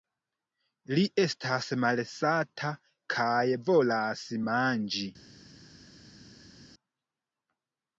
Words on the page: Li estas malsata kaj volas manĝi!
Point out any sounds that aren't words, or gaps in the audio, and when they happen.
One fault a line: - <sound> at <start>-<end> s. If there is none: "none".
none